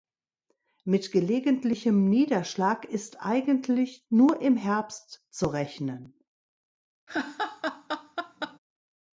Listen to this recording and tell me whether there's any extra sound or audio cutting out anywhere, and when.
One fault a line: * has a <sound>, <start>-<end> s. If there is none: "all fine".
* has a laugh, 7.1-8.6 s